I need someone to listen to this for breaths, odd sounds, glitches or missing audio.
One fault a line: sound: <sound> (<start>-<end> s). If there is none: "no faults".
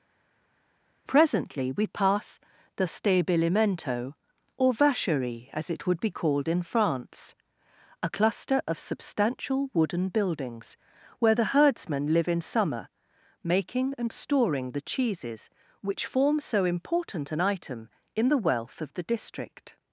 no faults